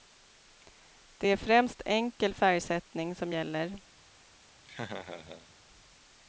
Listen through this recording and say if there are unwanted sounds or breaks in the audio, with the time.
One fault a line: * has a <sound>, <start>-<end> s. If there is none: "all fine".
* has a laugh, 4.6-5.5 s